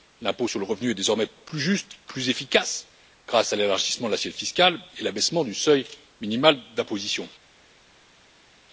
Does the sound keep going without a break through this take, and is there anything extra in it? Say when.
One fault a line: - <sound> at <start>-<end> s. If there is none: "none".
none